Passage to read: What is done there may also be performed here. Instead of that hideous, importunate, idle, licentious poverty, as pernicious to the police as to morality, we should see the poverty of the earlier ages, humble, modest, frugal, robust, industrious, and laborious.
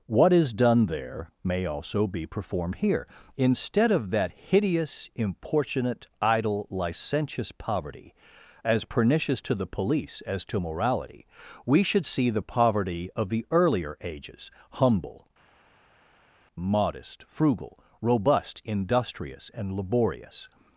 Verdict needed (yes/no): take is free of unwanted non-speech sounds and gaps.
yes